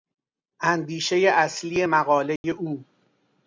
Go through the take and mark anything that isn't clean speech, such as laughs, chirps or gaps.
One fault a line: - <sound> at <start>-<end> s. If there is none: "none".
- dropout at 2.4-2.4 s